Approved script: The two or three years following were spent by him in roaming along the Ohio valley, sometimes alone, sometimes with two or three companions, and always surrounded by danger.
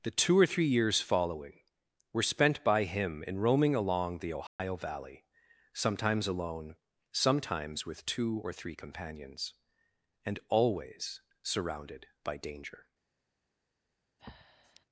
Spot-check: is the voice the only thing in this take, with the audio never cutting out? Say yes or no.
no